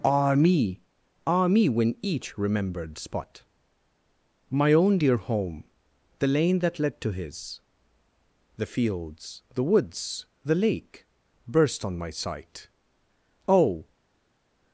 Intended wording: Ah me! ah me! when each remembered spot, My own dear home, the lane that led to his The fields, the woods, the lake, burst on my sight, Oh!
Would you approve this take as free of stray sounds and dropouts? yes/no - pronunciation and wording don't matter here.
yes